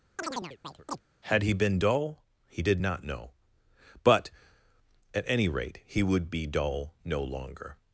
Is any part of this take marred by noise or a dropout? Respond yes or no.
yes